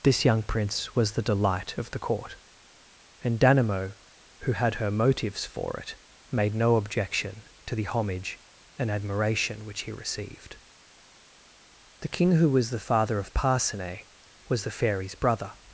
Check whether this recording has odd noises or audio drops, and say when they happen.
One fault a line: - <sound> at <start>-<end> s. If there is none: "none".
none